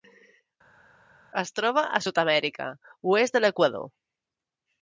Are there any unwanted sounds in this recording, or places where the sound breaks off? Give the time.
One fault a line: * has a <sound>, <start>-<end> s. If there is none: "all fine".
all fine